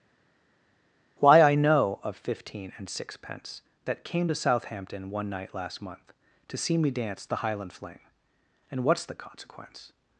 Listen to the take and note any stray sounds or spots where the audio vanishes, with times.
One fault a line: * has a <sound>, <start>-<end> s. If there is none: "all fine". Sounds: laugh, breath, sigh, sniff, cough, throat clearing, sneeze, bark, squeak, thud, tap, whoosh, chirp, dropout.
all fine